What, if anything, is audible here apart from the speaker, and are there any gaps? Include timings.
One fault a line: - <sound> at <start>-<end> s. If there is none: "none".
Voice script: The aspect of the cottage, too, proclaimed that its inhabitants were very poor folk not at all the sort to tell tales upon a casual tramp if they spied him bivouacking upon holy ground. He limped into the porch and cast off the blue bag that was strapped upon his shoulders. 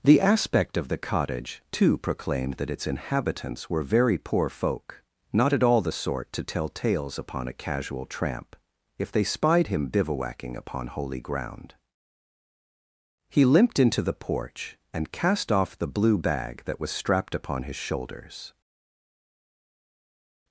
none